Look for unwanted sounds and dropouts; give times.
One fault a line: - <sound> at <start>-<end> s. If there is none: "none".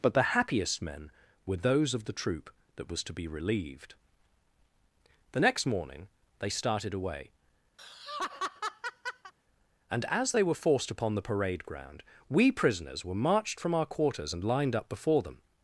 - laugh at 7.8-9.3 s